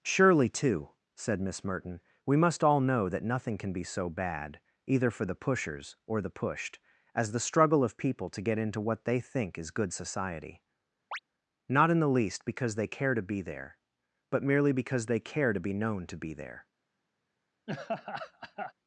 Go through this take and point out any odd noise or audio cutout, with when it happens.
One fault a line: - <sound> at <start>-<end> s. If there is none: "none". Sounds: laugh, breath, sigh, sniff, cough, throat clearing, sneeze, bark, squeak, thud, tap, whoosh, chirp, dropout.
- chirp at 11.1-11.2 s
- laugh at 17.7-18.7 s